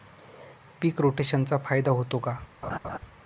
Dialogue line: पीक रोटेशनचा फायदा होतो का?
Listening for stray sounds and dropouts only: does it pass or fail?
fail